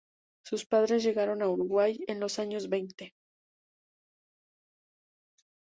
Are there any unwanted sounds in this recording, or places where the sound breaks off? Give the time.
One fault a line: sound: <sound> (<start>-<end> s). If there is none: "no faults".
no faults